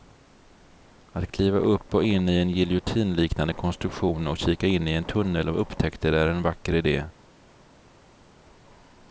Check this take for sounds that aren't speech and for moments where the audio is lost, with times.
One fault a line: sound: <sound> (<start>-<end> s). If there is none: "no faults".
no faults